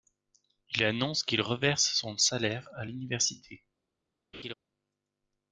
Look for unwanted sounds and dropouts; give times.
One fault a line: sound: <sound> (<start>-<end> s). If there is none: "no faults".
sound: laugh (4.3-4.5 s)